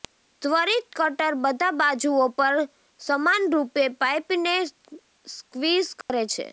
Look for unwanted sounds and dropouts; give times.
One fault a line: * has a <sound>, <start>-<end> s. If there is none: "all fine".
* has a dropout, 6.0-6.1 s